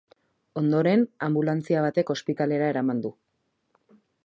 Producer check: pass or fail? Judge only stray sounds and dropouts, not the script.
pass